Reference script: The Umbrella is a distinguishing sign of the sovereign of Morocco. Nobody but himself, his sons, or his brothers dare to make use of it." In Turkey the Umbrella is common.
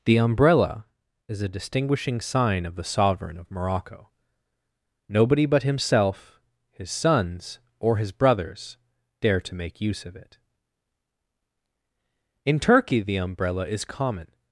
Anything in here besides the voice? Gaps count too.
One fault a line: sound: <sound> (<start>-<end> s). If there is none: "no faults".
no faults